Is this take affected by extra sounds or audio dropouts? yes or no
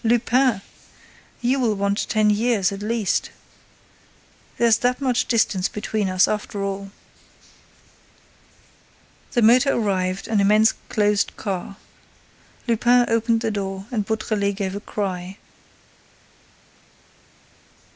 no